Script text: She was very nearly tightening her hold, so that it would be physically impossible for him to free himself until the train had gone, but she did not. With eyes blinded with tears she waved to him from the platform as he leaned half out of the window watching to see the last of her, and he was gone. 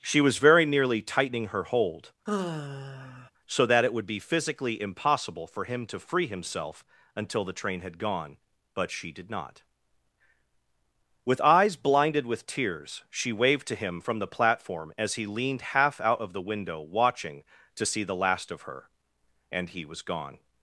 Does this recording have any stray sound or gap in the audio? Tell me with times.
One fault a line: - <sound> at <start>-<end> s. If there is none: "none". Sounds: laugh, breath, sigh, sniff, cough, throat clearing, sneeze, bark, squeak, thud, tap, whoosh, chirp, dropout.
- sigh at 2.3-3.3 s